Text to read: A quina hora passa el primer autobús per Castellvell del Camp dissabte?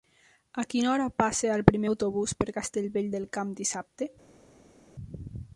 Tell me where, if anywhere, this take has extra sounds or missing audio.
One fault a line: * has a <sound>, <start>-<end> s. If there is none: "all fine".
all fine